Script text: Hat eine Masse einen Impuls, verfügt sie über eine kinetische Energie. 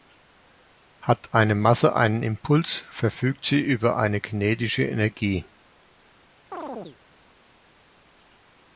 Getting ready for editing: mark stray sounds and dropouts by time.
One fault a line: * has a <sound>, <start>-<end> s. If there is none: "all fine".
* has a chirp, 6.5-7.0 s